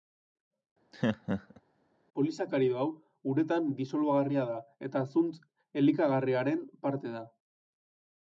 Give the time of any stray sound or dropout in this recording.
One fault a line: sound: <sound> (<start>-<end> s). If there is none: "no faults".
sound: laugh (0.9-1.6 s)